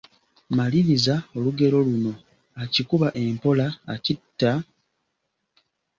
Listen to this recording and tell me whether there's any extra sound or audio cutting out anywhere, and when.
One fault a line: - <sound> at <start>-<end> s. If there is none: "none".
none